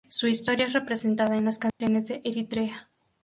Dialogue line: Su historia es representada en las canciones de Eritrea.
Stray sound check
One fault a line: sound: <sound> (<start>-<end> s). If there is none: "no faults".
sound: dropout (1.7-1.8 s)